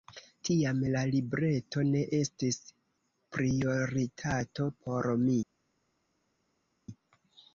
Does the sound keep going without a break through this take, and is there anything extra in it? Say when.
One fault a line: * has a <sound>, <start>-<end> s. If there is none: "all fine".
all fine